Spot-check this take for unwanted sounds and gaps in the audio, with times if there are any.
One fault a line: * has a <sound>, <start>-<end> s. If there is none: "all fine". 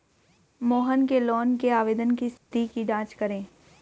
* has a dropout, 2.4-2.5 s